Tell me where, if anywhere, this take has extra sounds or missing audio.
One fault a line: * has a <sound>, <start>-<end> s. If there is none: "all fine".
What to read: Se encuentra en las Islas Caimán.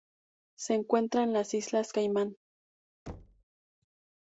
* has a thud, 3.1-3.4 s